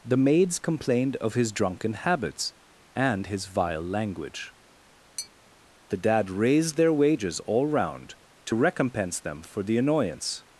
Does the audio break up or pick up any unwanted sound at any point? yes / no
yes